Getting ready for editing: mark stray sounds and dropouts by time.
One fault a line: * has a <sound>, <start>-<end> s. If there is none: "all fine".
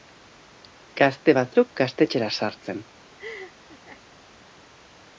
* has a laugh, 3.2-4.0 s